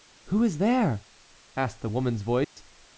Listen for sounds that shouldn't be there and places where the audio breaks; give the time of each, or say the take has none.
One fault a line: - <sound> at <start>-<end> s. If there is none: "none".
- dropout at 2.4-2.6 s